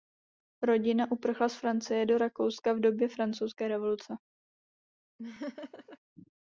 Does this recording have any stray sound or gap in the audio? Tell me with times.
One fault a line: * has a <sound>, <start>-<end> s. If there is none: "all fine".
* has a laugh, 5.2-6.0 s